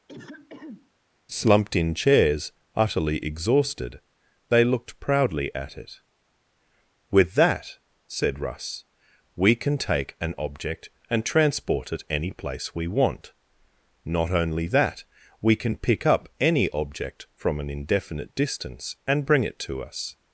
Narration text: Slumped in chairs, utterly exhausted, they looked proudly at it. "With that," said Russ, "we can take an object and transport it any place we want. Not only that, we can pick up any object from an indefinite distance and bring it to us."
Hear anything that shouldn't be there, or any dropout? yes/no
yes